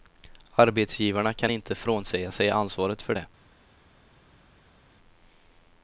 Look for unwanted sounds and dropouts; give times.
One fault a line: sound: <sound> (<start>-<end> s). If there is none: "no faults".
no faults